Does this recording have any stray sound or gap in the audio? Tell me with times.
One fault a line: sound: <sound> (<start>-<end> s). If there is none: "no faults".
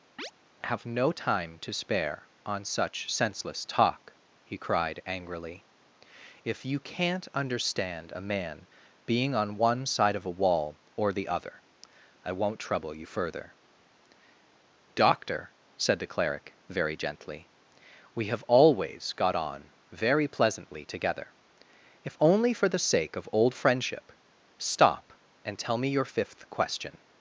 sound: chirp (0.2-0.3 s)